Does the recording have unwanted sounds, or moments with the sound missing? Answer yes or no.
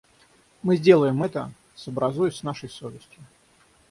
no